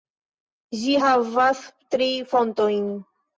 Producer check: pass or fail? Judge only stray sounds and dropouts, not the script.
pass